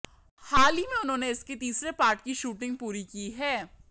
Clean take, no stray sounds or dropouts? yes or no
yes